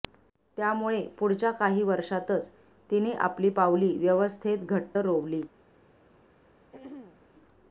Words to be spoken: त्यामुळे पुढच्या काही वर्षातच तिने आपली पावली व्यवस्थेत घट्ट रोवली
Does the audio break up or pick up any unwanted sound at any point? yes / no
yes